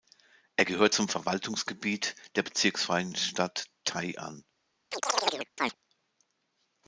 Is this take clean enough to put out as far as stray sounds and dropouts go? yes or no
no